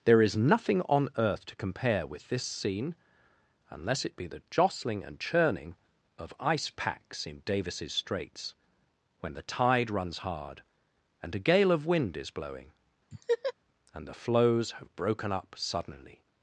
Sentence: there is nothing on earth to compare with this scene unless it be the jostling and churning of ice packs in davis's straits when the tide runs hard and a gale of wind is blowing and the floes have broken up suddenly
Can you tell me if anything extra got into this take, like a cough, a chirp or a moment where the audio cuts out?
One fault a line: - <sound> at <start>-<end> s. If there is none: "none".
- laugh at 13.1-13.5 s